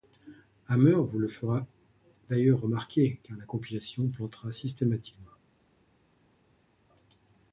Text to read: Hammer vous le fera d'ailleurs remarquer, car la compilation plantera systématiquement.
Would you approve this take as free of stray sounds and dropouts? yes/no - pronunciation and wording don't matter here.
yes